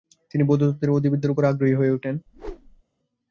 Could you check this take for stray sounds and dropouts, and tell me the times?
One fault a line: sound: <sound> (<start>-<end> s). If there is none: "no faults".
sound: whoosh (2.3-2.8 s)